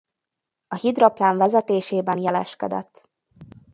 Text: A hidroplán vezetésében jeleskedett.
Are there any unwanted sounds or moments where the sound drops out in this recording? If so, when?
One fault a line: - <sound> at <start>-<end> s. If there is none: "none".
none